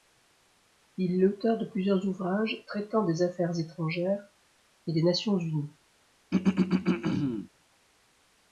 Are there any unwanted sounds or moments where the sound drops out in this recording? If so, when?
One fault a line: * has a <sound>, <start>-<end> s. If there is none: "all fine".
* has a throat clearing, 6.3-7.5 s